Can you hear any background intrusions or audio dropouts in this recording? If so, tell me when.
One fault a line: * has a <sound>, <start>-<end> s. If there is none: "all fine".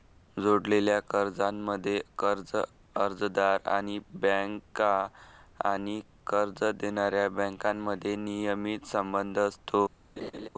* has a laugh, 10.2-10.5 s